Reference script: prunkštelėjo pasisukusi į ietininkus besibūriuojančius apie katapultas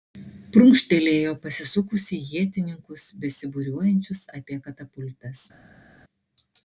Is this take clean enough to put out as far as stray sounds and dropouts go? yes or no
yes